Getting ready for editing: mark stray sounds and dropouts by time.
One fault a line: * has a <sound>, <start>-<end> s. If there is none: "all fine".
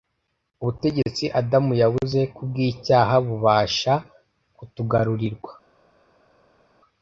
all fine